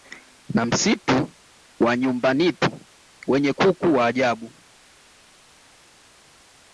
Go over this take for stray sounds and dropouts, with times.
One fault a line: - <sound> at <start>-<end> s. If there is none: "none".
none